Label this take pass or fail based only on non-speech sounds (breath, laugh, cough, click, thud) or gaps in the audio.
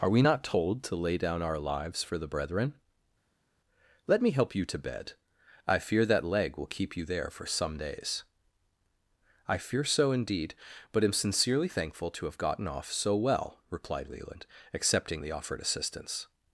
pass